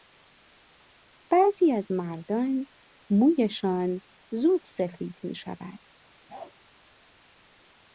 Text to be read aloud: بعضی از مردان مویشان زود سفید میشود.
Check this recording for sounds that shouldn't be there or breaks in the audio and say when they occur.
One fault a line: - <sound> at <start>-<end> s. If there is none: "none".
- bark at 6.3-6.5 s